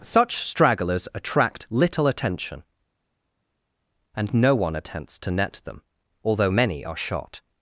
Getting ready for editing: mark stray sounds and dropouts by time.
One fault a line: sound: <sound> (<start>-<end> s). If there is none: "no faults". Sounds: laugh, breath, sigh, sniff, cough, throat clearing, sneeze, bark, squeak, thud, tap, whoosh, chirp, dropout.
no faults